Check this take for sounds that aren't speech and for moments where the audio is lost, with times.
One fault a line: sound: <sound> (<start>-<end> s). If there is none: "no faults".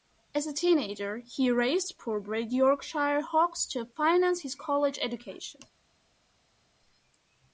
no faults